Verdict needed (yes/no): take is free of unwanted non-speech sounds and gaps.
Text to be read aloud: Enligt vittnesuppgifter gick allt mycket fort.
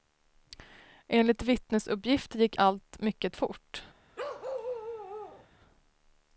no